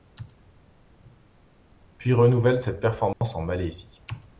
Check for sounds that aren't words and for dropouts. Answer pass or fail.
fail